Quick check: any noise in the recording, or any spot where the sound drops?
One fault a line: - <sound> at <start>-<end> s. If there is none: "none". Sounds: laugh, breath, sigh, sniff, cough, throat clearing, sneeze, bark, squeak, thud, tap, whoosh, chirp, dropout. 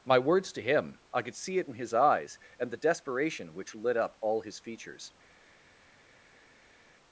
none